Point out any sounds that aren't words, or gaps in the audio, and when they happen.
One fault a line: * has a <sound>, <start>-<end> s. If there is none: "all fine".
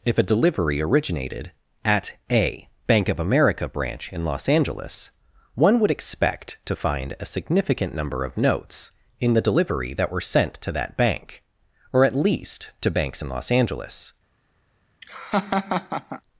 * has a laugh, 15.0-16.2 s